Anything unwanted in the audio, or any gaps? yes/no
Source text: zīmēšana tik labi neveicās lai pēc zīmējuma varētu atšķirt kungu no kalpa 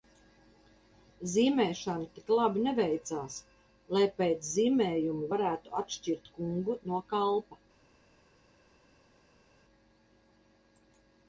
no